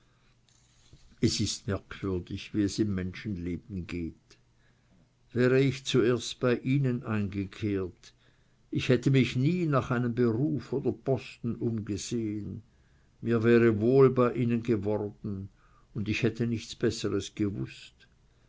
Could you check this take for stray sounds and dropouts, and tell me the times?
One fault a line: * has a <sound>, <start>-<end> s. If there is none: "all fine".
all fine